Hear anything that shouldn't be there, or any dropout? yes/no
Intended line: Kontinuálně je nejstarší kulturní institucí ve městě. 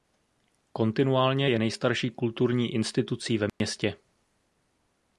yes